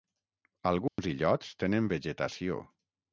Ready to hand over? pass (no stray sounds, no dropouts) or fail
fail